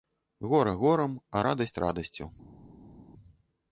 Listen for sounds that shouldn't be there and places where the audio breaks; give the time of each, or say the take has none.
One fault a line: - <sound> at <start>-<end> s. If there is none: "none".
none